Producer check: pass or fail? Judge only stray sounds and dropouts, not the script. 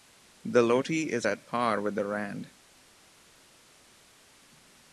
pass